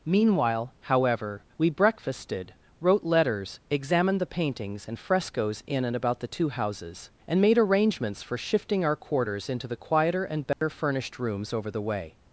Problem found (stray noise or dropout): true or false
true